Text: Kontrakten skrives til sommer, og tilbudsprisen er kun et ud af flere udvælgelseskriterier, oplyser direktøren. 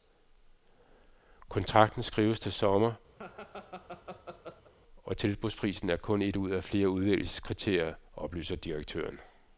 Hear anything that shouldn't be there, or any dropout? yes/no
yes